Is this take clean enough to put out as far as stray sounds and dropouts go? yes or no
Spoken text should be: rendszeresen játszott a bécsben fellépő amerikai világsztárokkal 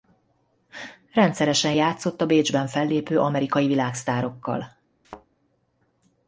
no